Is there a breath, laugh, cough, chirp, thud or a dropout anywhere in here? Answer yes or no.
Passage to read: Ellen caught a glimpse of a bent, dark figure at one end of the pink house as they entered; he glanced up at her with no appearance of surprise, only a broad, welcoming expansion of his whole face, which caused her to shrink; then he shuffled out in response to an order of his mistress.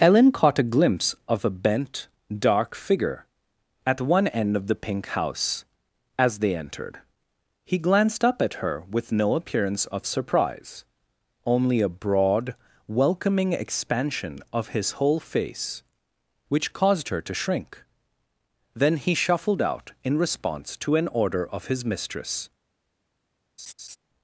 yes